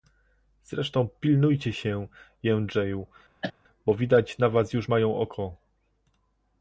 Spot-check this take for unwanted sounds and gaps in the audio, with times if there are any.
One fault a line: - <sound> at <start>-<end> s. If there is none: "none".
- cough at 3.4-3.5 s